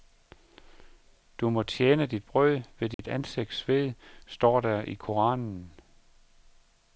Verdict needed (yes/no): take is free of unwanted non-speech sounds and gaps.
no